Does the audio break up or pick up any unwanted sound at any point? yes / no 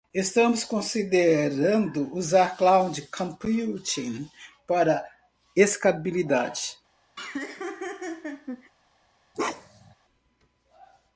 yes